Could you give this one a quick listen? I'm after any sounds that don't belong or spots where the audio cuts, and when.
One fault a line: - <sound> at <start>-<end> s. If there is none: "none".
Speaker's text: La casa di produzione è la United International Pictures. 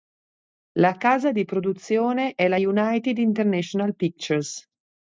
none